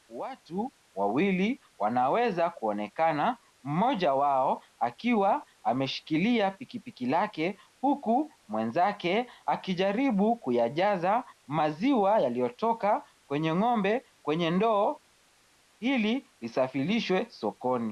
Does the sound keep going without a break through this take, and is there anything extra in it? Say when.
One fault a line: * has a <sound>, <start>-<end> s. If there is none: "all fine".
all fine